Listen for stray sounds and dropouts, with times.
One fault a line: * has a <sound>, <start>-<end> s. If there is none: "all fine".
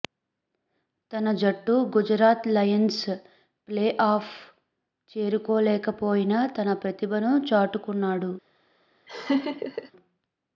* has a laugh, 9.1-9.9 s